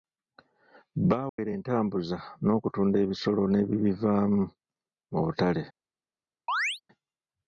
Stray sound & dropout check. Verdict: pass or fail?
fail